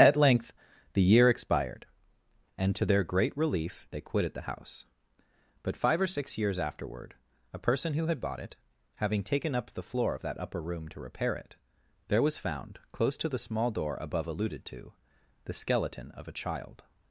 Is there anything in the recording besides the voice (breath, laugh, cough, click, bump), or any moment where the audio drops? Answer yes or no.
no